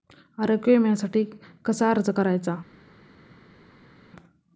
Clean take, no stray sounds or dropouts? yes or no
yes